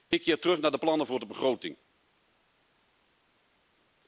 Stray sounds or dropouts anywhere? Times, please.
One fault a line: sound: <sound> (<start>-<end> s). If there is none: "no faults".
no faults